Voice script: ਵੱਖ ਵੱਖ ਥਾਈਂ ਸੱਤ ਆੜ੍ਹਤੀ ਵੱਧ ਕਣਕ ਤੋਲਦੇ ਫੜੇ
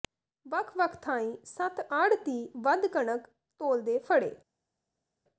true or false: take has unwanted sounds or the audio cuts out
false